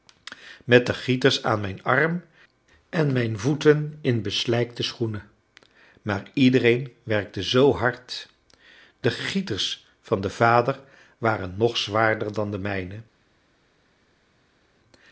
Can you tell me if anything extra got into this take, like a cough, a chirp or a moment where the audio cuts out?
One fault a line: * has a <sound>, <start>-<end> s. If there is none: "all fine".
all fine